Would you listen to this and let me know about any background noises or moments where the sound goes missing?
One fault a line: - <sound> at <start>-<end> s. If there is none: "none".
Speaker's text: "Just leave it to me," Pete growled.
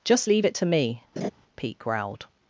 - laugh at 1.2-1.3 s